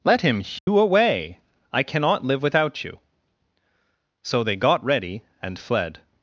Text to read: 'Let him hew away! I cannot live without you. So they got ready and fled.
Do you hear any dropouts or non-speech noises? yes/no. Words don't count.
yes